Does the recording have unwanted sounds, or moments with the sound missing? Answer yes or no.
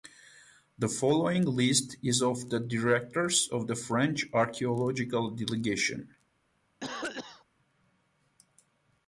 yes